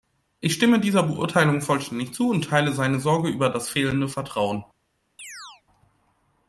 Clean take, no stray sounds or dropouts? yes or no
no